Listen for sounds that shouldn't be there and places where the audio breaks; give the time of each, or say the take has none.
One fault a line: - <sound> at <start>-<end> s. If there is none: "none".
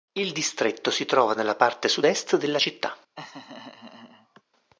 - laugh at 3.2-4.4 s